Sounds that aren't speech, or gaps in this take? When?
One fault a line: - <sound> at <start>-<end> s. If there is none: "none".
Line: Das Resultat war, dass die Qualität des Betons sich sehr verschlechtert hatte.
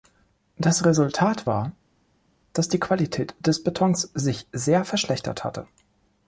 none